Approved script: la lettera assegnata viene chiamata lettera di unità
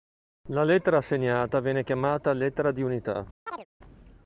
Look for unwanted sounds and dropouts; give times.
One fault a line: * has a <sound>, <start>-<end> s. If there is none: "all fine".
* has a chirp, 3.5-3.7 s